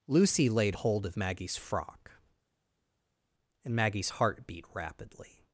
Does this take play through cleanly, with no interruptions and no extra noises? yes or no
yes